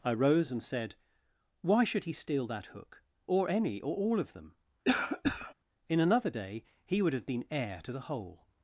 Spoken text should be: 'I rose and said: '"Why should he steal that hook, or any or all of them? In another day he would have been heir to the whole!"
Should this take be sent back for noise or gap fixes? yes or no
yes